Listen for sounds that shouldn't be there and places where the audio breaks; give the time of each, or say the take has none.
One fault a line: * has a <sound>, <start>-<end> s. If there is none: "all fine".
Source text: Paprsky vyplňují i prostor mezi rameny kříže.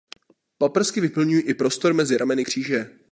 all fine